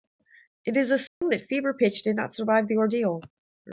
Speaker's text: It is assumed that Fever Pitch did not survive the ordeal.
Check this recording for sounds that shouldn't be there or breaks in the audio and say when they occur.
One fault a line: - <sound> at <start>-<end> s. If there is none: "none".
- dropout at 1.1-1.2 s